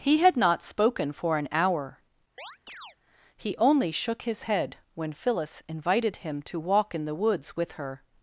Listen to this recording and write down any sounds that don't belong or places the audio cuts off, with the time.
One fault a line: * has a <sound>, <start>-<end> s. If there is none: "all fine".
* has a chirp, 2.4-3.0 s